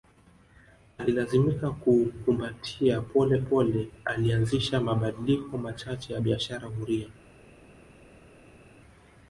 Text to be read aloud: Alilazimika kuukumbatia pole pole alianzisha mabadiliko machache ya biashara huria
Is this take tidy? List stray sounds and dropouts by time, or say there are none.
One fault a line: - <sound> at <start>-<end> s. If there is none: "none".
none